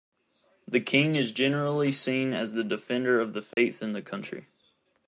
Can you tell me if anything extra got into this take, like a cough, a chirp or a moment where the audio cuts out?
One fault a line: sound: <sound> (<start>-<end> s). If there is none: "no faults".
sound: dropout (3.5-3.6 s)